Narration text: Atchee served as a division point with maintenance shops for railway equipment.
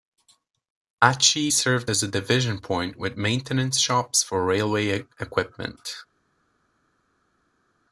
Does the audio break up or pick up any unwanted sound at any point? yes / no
no